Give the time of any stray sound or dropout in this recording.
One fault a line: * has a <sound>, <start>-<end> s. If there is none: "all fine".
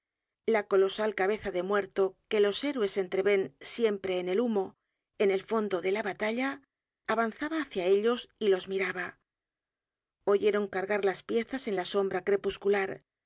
all fine